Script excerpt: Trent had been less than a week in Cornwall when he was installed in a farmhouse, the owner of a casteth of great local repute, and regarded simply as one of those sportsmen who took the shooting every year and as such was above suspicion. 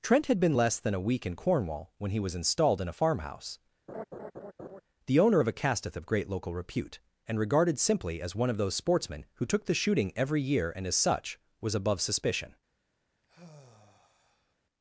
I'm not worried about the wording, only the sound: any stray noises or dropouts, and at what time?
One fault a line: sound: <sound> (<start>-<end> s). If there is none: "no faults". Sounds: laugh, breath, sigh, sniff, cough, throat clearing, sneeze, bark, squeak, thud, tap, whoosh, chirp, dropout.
sound: laugh (3.9-4.8 s)
sound: sigh (13.2-14.6 s)